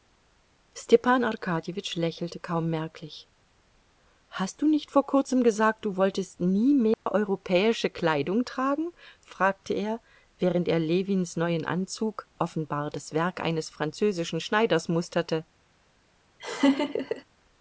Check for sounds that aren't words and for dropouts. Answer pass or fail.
fail